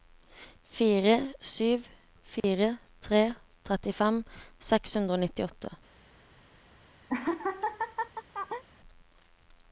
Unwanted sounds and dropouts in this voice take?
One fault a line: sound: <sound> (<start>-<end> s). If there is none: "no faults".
sound: dropout (2.4-2.4 s)
sound: laugh (7.1-8.6 s)